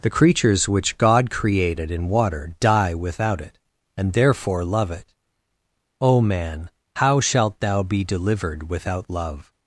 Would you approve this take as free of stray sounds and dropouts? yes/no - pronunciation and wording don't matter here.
yes